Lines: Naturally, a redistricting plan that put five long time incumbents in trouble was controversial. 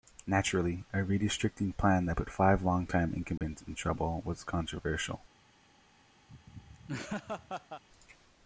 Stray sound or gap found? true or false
true